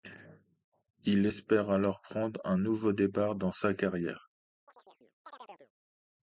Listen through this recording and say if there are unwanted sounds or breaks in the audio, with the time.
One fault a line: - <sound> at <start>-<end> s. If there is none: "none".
- chirp at 4.7-5.7 s